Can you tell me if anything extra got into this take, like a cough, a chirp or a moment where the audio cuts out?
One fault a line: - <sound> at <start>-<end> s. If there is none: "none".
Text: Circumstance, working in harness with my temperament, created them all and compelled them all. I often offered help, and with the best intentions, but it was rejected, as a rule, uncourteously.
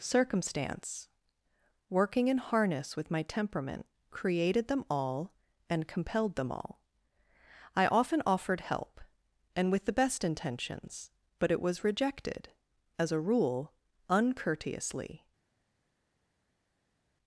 none